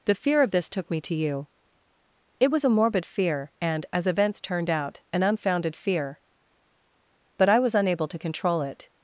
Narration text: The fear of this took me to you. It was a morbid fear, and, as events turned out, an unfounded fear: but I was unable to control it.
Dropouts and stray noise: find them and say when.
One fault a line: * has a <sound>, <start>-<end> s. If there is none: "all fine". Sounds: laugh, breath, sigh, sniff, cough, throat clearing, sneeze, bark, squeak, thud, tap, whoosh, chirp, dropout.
all fine